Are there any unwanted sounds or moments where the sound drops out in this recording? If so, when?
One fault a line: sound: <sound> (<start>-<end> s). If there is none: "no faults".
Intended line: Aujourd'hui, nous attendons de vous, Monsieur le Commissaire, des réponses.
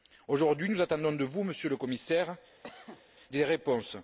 sound: cough (2.6-3.0 s)